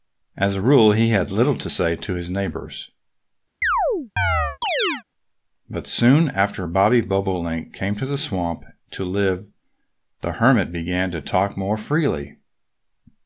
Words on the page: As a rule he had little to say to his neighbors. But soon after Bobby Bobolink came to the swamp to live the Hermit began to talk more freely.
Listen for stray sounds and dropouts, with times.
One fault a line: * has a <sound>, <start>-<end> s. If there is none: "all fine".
* has a chirp, 3.6-5.0 s